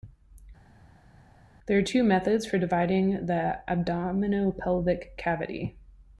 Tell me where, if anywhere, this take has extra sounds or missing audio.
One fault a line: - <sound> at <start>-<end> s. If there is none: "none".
none